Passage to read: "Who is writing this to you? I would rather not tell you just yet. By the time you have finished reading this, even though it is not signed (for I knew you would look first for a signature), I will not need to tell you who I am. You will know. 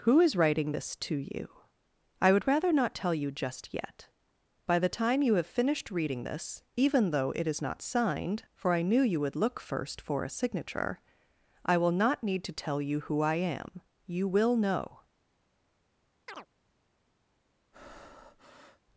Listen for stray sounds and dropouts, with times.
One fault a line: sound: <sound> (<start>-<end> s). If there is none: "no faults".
sound: chirp (16.3-16.5 s)
sound: breath (17.7-18.8 s)